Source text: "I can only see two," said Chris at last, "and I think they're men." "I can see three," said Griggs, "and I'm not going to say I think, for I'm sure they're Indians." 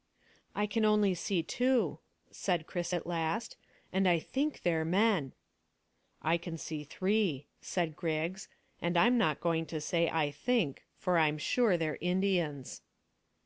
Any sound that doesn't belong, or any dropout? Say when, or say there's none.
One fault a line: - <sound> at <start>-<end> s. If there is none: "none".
none